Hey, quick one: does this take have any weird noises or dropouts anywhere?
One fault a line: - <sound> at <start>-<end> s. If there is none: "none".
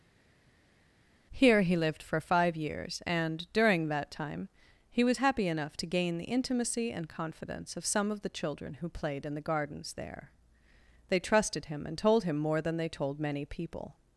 none